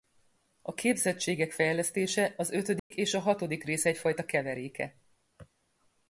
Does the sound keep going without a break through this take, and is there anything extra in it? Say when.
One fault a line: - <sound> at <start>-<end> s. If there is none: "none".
- dropout at 2.8-2.9 s